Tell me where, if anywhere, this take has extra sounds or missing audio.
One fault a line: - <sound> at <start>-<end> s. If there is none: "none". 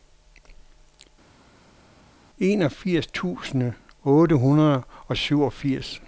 none